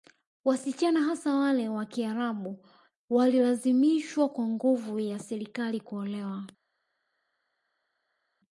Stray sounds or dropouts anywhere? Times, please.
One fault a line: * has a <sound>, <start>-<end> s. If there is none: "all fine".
all fine